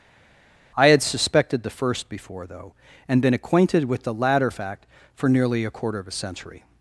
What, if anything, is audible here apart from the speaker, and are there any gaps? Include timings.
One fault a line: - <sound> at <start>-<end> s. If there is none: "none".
none